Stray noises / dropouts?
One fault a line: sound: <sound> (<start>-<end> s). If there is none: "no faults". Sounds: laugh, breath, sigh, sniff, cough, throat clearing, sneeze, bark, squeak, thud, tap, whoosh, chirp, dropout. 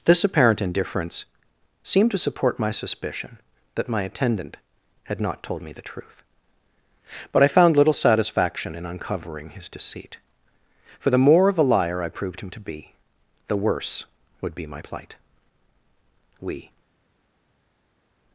no faults